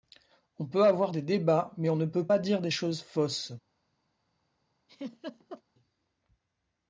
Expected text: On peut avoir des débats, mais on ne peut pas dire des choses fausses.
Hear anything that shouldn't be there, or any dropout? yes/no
yes